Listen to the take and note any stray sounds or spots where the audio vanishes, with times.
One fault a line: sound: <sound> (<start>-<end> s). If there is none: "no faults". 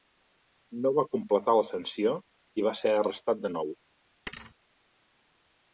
sound: thud (4.3-4.6 s)